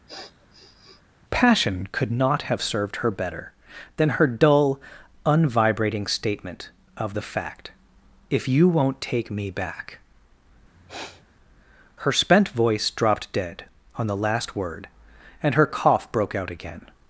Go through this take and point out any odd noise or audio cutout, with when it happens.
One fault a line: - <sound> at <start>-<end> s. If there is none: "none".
- sniff at 0.1-1.0 s
- sniff at 10.7-11.2 s